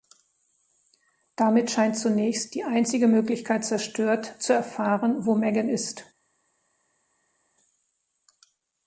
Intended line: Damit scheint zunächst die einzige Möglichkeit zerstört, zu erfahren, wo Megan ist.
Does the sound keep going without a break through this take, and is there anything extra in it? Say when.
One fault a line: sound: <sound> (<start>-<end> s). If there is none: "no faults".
no faults